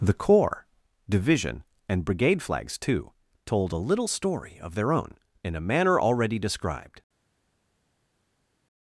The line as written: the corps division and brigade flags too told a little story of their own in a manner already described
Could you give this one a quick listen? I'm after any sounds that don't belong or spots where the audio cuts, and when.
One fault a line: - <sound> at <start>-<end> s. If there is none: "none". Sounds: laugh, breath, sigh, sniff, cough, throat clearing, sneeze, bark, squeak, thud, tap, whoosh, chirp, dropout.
none